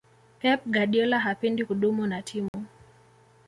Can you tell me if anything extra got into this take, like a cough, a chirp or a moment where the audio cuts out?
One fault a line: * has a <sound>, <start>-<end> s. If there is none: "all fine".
* has a dropout, 2.5-2.5 s